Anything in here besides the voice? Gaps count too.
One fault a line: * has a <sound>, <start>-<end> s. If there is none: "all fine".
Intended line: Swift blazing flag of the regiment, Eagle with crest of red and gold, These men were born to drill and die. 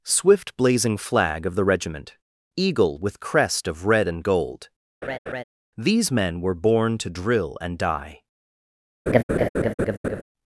* has a laugh, 5.0-5.4 s
* has a laugh, 9.1-10.2 s